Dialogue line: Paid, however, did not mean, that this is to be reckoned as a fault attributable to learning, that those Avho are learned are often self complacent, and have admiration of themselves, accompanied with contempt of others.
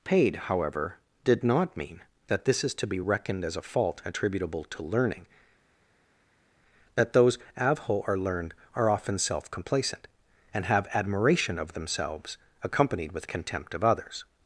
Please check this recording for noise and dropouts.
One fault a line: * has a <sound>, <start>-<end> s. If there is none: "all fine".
all fine